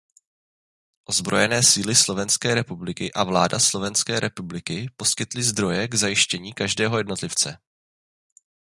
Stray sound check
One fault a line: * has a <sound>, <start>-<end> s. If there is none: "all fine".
all fine